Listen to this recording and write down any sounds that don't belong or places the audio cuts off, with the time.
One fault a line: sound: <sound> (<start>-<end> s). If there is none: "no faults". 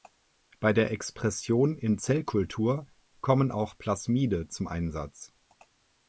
no faults